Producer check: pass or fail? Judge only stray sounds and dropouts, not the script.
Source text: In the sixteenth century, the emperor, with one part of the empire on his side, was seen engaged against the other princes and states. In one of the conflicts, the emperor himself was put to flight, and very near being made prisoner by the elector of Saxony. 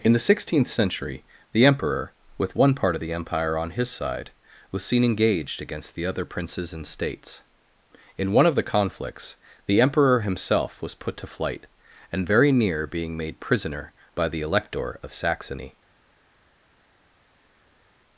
pass